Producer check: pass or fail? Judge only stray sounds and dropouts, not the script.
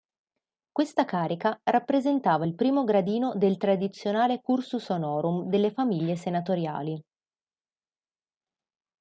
pass